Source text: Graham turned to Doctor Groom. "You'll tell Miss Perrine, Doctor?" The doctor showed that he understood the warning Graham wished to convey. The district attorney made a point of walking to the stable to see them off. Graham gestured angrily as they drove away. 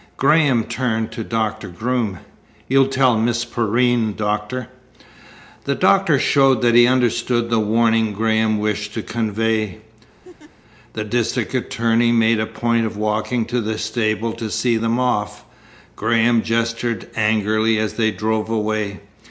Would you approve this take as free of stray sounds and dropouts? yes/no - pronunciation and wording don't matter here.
no